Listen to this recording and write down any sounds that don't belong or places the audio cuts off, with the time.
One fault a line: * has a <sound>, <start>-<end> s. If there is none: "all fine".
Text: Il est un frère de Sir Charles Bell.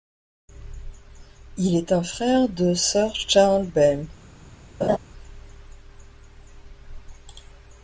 * has a laugh, 4.8-5.0 s